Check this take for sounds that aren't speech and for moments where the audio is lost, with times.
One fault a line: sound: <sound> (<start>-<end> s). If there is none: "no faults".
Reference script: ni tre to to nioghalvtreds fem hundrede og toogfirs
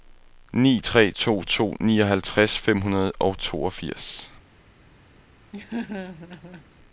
sound: laugh (5.5-6.7 s)